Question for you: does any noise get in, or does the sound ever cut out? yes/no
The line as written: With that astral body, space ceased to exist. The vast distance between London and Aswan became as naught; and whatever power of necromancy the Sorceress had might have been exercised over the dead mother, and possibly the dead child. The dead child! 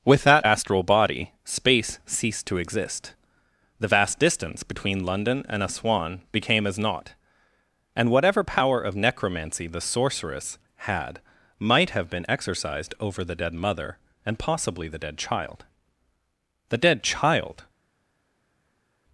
no